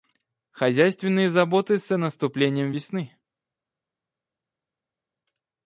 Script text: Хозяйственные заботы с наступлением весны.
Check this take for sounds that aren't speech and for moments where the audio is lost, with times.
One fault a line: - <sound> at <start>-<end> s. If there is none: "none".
none